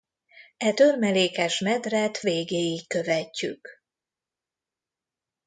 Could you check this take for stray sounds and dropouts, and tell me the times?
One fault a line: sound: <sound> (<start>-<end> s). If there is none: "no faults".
no faults